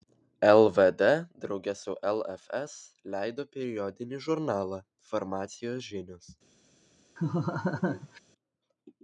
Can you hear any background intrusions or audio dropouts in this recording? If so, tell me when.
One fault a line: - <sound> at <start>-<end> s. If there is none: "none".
- laugh at 7.2-8.2 s